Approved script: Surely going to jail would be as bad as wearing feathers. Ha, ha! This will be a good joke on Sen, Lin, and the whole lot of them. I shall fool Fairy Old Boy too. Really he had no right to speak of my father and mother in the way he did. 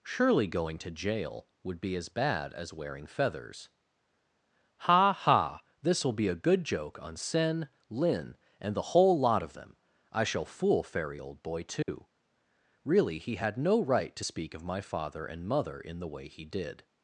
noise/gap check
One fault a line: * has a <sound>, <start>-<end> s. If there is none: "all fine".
* has a dropout, 11.8-11.9 s